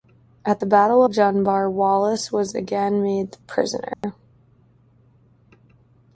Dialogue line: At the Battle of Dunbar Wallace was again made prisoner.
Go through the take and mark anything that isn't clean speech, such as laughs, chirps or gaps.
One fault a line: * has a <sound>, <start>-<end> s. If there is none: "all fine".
* has a dropout, 3.9-4.0 s